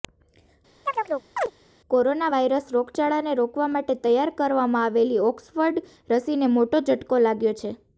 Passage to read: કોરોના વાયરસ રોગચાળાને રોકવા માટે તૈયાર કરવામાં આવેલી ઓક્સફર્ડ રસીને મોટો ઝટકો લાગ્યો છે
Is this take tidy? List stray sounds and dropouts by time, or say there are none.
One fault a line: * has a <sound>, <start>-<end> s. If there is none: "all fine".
* has a chirp, 0.9-1.5 s